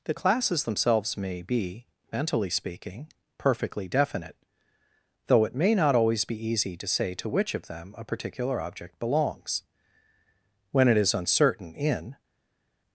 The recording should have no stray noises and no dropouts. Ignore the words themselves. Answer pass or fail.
pass